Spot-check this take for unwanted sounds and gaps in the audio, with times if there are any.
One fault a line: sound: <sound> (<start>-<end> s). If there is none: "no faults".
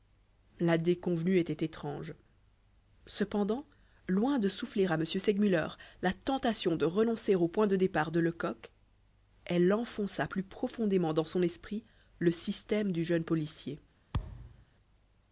sound: thud (14.1-14.7 s)